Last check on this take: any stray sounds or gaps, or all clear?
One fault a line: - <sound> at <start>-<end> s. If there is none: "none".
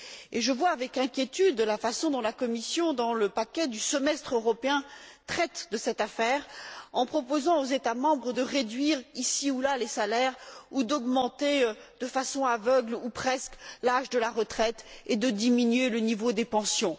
none